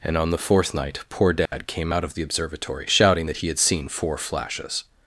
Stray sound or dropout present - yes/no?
yes